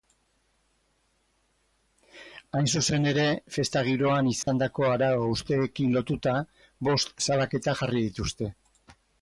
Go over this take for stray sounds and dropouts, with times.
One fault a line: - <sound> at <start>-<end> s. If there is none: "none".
- dropout at 4.4-4.5 s